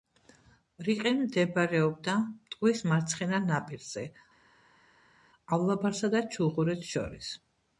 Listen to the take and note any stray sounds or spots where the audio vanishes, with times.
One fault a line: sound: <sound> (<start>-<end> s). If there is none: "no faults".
no faults